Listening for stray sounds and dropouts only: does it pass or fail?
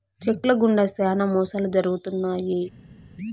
pass